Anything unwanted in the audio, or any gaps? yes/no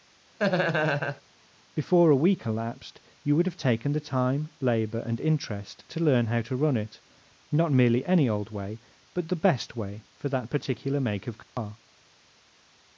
yes